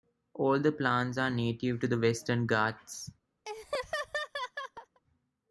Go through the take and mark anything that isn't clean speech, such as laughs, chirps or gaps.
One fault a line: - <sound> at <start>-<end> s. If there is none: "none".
- laugh at 3.5-5.0 s